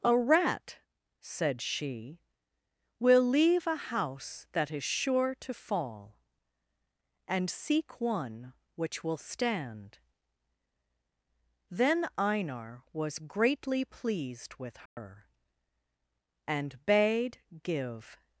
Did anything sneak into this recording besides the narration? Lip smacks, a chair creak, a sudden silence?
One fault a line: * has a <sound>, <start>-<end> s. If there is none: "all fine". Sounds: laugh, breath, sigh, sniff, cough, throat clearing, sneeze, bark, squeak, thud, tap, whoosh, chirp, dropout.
* has a dropout, 14.9-15.0 s